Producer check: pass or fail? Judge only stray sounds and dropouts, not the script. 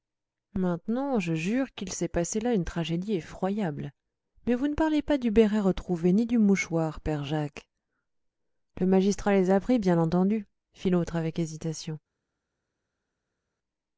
pass